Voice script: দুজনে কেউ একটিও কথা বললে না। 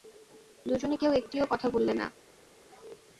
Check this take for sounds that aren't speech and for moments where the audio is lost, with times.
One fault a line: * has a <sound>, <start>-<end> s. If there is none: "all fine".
all fine